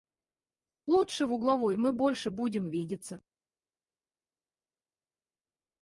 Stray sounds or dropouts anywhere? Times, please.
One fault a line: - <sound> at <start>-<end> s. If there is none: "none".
none